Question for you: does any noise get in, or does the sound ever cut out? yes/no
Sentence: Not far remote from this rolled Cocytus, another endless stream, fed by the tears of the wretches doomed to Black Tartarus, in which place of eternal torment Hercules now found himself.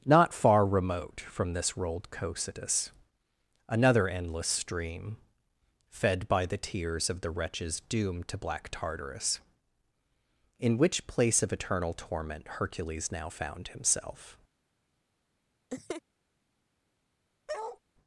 yes